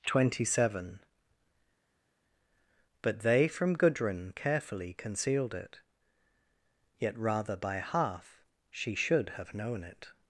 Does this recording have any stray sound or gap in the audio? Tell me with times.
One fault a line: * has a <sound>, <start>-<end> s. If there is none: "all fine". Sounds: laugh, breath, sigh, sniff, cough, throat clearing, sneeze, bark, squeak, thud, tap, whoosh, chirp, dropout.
all fine